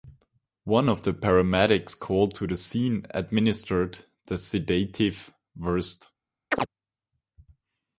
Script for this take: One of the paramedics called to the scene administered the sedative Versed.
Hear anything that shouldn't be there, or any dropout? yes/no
yes